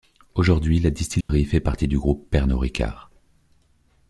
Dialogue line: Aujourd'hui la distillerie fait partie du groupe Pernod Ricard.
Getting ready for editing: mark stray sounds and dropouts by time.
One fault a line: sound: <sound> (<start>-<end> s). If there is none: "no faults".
sound: dropout (1.2-1.3 s)